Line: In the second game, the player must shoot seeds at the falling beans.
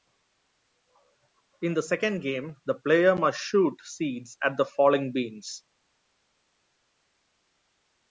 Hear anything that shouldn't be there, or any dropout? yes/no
no